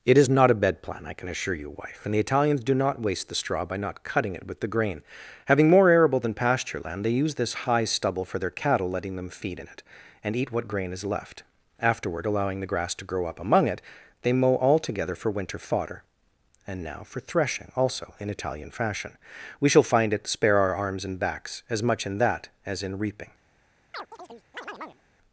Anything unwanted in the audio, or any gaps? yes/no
yes